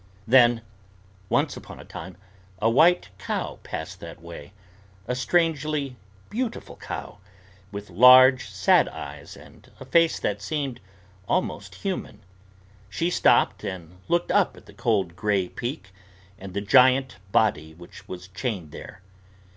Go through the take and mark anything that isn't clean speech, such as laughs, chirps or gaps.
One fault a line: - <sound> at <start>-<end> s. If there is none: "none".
none